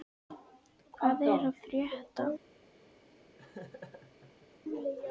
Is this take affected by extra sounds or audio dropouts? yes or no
yes